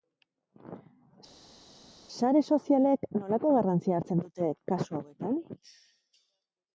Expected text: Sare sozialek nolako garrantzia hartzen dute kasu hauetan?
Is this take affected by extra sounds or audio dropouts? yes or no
no